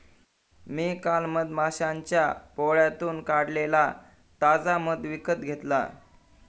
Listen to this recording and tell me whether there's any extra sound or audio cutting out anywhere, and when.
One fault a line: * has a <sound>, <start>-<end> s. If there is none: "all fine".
all fine